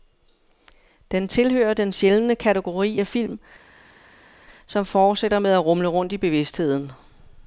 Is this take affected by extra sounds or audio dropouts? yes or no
no